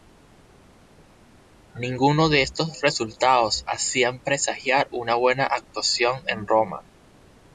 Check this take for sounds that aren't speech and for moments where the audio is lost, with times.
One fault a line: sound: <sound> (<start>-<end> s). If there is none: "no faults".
no faults